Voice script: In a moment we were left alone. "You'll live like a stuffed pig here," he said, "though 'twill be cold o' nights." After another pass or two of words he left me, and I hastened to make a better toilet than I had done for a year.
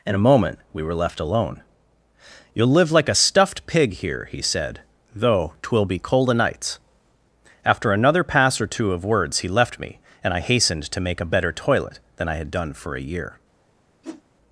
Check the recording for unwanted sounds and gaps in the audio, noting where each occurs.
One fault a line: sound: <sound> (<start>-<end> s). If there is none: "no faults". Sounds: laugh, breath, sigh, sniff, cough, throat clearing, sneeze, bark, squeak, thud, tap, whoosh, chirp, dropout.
sound: whoosh (14.0-14.2 s)